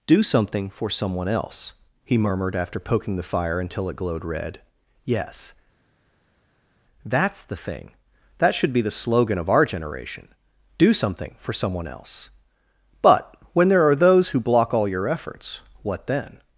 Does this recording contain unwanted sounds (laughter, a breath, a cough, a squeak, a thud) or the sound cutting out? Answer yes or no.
no